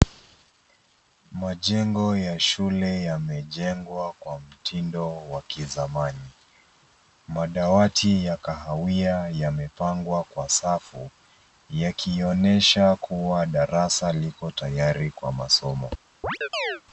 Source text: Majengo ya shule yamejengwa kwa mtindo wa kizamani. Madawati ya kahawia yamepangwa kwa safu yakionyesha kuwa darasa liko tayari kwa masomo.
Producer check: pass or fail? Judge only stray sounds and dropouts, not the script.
fail